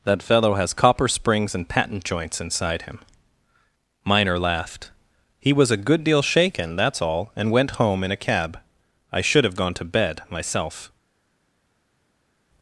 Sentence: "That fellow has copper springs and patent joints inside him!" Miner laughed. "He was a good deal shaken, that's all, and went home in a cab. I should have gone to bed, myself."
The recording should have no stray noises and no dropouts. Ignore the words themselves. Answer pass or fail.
pass